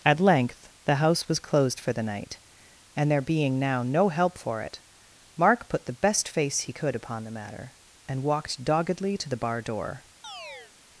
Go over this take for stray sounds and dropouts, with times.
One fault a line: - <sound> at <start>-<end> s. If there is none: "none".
- chirp at 10.2-10.7 s